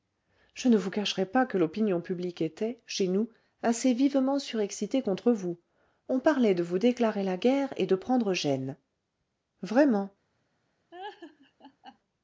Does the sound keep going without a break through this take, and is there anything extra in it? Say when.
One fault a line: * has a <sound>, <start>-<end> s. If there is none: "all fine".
* has a laugh, 10.9-12.0 s